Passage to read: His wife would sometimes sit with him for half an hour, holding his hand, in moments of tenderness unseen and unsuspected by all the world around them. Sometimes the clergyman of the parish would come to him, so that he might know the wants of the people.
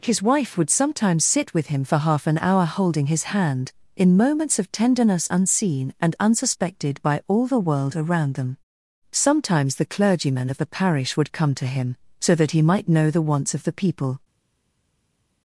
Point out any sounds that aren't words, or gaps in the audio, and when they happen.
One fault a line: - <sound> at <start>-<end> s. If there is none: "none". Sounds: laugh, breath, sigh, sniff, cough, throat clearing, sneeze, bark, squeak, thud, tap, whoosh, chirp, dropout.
none